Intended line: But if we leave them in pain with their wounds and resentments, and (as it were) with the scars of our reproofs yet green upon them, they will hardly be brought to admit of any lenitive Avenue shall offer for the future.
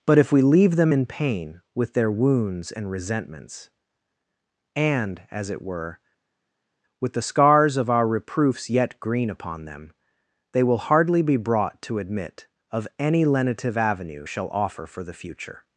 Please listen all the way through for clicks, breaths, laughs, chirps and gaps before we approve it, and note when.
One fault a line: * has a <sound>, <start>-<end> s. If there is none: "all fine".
all fine